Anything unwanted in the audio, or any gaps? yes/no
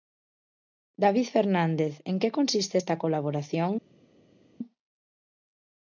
no